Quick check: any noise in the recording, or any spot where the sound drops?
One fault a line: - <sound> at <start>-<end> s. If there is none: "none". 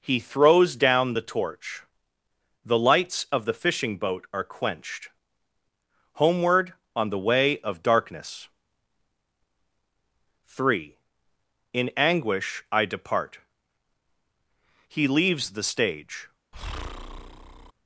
- breath at 16.5-17.7 s